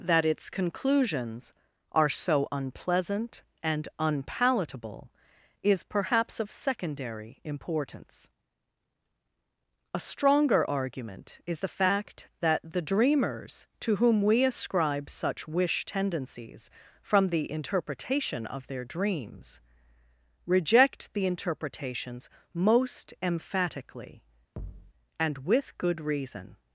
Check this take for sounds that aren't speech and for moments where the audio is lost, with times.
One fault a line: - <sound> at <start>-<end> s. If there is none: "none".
- thud at 24.6-24.9 s